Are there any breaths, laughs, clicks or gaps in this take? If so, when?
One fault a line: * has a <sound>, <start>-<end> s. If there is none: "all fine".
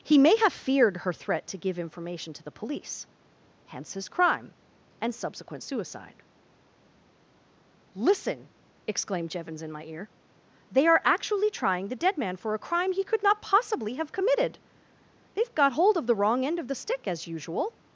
all fine